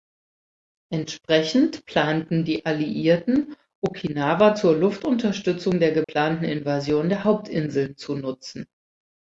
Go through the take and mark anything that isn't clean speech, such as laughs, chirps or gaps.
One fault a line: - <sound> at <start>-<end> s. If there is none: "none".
- dropout at 6.0-6.1 s